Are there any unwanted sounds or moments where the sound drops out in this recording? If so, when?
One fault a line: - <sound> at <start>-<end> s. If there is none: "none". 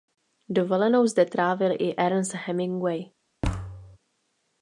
- thud at 3.4-4.0 s